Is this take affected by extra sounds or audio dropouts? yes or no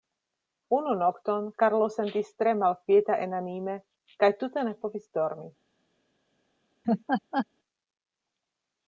yes